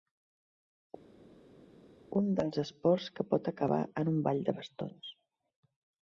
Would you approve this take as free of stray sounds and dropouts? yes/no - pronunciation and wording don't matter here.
yes